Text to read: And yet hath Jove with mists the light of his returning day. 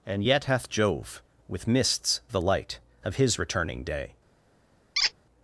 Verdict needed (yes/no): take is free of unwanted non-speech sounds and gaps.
no